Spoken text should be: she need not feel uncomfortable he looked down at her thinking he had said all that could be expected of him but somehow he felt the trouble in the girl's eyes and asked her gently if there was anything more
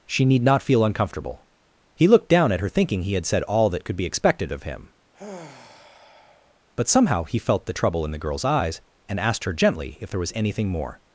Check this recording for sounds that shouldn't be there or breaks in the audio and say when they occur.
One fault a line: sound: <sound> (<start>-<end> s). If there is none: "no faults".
sound: sigh (5.1-6.6 s)